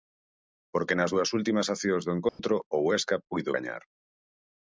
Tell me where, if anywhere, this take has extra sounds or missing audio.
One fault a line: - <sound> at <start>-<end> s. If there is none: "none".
- dropout at 2.3-2.4 s